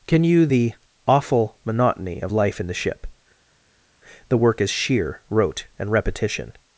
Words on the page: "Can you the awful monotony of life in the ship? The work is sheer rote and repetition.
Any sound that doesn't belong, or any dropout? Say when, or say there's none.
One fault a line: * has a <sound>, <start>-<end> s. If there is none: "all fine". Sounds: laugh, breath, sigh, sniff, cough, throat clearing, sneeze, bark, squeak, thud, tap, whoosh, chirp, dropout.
all fine